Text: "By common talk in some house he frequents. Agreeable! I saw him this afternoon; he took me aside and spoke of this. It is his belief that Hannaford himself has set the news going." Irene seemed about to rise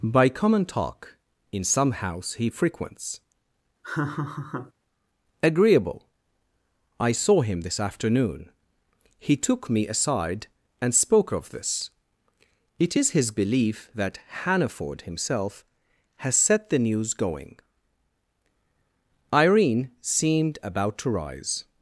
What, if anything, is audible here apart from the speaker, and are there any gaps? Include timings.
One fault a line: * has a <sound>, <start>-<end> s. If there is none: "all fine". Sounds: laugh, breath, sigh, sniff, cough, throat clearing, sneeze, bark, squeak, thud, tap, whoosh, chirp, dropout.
* has a laugh, 3.8-4.7 s